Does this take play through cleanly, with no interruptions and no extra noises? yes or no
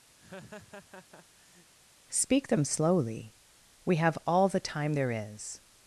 no